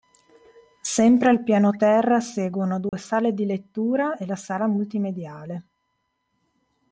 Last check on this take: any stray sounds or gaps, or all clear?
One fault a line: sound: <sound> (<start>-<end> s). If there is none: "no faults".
sound: dropout (2.9-2.9 s)